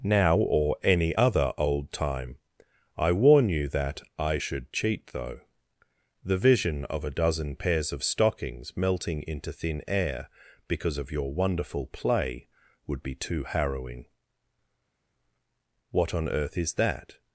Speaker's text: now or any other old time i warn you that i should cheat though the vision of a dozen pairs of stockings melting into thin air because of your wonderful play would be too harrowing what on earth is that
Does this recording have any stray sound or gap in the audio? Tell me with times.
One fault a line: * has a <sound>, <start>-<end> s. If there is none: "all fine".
all fine